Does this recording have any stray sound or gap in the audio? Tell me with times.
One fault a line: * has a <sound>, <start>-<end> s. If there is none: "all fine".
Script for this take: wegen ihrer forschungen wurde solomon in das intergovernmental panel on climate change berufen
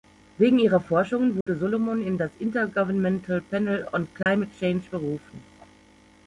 * has a dropout, 1.4-1.5 s
* has a dropout, 4.2-4.3 s